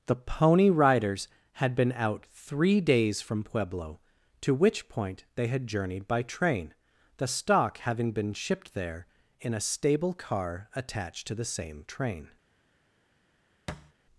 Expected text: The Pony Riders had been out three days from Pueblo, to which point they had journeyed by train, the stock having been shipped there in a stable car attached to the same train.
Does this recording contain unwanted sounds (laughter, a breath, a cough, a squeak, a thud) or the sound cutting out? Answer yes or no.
yes